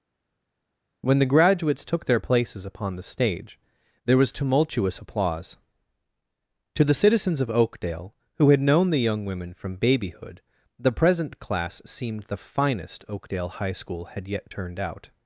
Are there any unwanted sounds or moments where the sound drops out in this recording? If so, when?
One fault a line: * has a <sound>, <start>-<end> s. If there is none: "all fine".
all fine